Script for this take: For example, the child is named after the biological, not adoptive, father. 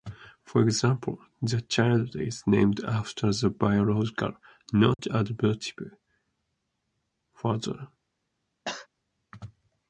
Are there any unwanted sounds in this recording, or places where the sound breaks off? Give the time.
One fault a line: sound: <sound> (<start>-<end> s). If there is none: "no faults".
sound: dropout (4.9-5.0 s)
sound: cough (8.6-8.9 s)